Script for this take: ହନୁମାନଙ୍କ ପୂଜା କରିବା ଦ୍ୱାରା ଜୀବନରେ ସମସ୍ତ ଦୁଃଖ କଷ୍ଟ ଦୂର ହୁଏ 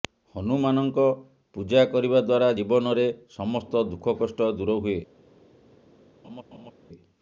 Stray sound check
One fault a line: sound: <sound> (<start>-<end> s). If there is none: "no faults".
sound: laugh (6.2-6.7 s)